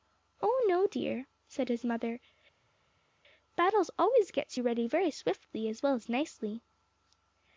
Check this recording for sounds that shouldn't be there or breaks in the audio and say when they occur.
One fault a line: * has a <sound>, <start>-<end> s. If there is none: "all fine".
all fine